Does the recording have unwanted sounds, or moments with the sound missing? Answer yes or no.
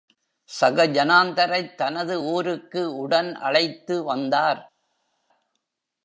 no